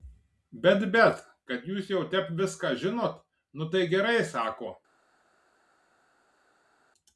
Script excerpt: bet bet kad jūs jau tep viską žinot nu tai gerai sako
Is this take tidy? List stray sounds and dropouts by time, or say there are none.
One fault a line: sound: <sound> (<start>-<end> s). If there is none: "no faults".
no faults